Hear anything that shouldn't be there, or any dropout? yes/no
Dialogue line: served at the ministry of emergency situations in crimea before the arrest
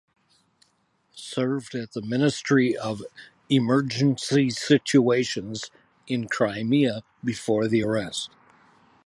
no